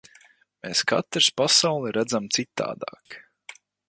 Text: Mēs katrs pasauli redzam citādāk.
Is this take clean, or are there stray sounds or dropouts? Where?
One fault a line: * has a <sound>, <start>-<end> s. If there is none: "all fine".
* has a dropout, 3.1-3.1 s